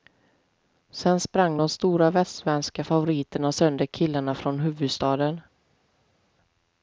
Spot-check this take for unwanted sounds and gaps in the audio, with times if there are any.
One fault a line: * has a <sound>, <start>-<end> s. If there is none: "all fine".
all fine